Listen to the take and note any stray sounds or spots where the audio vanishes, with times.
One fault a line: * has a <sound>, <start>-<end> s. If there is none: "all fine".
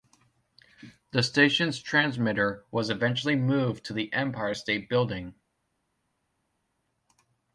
all fine